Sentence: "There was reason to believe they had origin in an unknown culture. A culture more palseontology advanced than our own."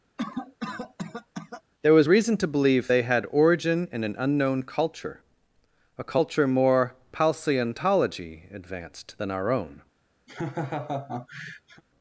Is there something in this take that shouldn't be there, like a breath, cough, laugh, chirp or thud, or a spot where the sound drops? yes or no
yes